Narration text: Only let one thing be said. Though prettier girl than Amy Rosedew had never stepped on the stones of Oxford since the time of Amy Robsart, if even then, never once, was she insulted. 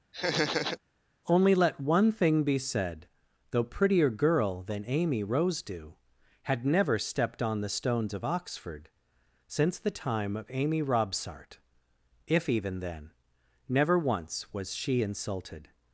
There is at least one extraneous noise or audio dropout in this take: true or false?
true